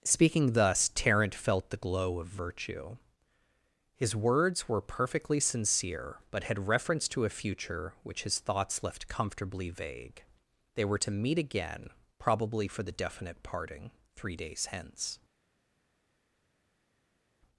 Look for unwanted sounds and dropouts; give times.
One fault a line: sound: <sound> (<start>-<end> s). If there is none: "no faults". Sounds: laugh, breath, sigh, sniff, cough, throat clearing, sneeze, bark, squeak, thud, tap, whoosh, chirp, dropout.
no faults